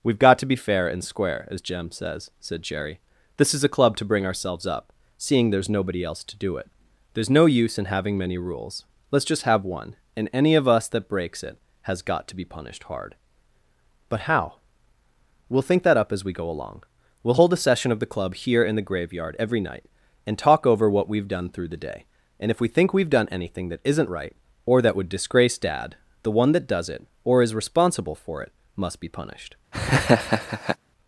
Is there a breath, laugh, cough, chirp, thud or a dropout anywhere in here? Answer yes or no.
yes